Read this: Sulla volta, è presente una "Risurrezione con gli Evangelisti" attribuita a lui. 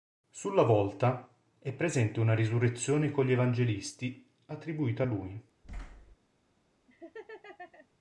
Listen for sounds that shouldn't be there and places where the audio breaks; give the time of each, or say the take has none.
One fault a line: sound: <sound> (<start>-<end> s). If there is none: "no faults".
sound: thud (5.6-6.2 s)
sound: laugh (6.9-7.9 s)